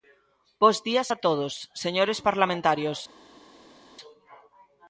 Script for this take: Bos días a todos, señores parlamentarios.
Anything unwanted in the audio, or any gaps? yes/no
no